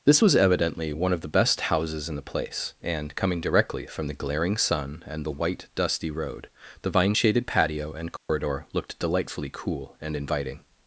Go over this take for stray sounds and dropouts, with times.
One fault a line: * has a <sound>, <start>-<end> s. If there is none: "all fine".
* has a dropout, 8.2-8.3 s